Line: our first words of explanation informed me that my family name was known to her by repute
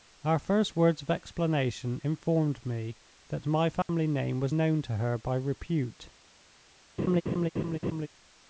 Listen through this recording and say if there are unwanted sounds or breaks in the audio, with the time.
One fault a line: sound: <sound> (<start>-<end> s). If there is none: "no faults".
sound: dropout (3.8-3.9 s)
sound: laugh (7.0-8.1 s)